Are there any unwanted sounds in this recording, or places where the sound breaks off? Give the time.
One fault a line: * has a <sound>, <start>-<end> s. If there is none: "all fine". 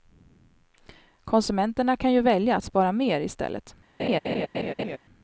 * has a laugh, 4.0-5.0 s